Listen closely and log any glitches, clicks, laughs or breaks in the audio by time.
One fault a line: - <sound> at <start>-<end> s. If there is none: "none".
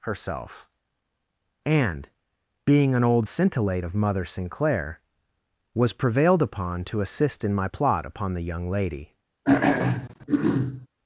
- throat clearing at 9.4-10.9 s